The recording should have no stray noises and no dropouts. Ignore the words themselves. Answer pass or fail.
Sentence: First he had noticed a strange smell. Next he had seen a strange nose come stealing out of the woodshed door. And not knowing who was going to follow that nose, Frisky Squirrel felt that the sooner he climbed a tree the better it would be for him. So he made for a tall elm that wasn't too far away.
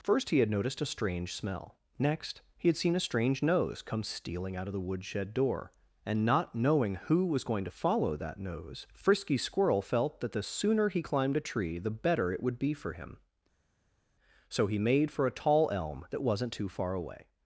pass